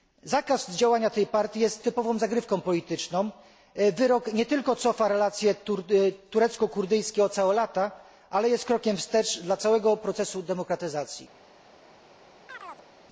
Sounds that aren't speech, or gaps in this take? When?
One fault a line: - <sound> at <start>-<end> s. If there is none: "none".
- chirp at 12.5-12.9 s